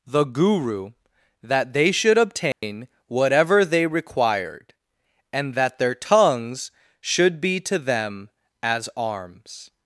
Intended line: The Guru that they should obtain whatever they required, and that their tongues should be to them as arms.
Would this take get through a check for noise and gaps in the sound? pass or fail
fail